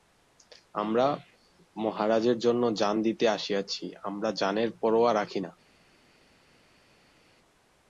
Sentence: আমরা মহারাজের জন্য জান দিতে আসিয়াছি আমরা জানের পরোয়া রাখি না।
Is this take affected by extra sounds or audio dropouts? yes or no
no